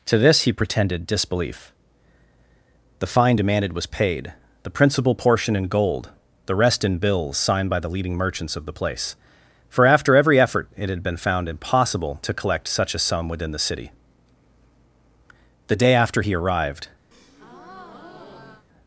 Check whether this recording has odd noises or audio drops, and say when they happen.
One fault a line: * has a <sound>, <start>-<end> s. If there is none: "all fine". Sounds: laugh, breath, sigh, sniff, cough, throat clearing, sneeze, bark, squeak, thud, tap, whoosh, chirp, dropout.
* has a breath, 17.1-18.7 s